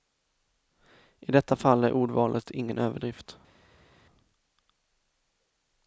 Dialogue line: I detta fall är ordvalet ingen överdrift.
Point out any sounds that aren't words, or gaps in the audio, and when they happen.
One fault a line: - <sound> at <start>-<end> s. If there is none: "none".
none